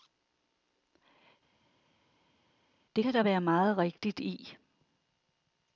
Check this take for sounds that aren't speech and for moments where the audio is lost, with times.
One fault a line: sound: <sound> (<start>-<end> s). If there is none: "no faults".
no faults